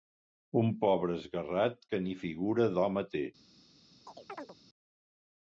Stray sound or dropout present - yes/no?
yes